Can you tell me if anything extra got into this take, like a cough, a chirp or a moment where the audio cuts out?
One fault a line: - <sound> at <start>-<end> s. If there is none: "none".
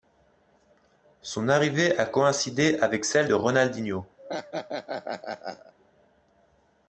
- laugh at 4.2-5.7 s